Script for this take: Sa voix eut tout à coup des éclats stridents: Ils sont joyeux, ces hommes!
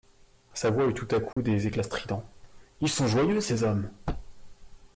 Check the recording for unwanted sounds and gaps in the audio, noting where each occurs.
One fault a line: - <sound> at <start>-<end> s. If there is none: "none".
- dropout at 1.3-1.4 s